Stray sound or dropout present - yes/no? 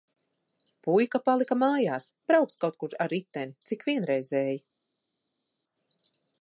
no